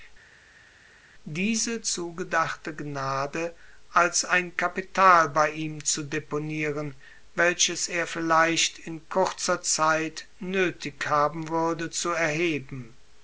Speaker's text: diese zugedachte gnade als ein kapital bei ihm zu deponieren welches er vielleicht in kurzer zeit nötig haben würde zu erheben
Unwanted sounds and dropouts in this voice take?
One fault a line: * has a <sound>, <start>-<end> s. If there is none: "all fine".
all fine